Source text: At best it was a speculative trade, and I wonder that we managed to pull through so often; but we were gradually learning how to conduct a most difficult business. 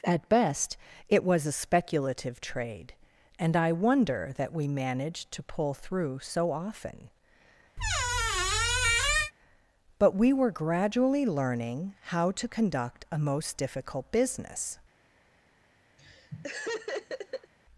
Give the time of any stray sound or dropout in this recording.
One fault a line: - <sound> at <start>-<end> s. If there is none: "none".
- squeak at 7.8-9.3 s
- laugh at 16.0-17.5 s